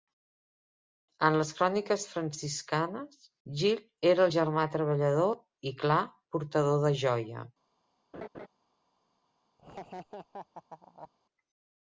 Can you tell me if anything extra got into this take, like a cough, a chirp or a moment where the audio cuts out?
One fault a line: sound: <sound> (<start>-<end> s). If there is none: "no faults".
sound: laugh (8.1-8.5 s)
sound: laugh (9.6-11.1 s)